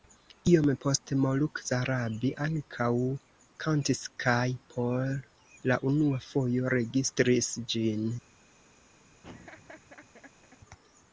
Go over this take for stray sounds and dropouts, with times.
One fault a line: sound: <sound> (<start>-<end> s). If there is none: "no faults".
sound: laugh (9.2-10.6 s)